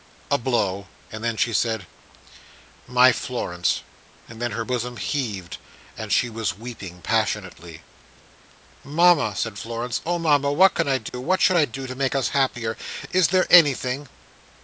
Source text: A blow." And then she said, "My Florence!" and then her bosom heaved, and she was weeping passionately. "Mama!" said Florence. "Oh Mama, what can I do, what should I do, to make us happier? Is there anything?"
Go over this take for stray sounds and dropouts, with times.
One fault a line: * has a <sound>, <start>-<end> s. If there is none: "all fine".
* has a dropout, 11.1-11.1 s